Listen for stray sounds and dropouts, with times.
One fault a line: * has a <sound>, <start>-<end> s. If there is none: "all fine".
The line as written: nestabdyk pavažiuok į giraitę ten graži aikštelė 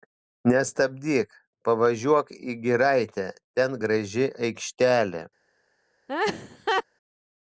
* has a laugh, 6.1-6.8 s